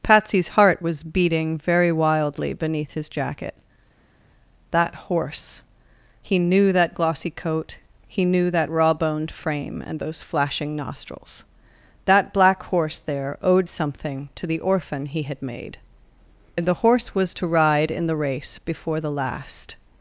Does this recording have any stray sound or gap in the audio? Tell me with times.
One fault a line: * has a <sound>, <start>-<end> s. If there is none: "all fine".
all fine